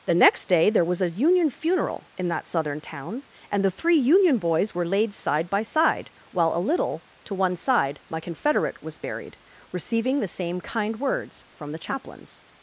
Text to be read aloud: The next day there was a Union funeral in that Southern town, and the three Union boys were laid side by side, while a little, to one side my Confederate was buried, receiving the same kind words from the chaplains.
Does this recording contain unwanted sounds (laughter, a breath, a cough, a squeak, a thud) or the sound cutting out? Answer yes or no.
no